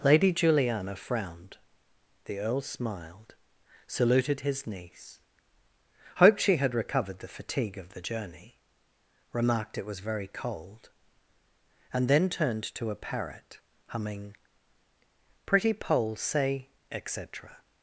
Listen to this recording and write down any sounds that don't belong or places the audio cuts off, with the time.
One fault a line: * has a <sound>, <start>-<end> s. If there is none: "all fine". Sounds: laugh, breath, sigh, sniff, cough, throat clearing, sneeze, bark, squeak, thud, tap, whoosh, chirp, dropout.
all fine